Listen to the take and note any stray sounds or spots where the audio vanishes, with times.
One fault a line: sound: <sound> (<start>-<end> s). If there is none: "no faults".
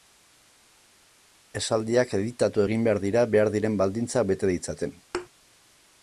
sound: thud (5.1-5.3 s)